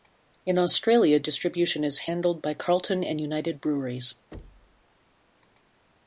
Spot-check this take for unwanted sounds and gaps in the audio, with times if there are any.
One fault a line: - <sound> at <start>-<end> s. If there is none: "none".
- thud at 4.3-4.8 s